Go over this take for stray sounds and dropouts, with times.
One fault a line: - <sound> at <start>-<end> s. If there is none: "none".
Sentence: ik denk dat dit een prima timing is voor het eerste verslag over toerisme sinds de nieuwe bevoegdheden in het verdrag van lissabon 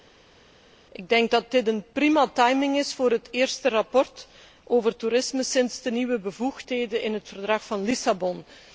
none